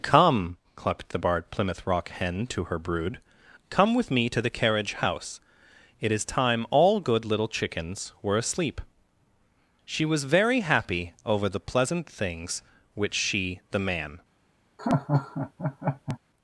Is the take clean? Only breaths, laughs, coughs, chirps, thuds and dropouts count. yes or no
no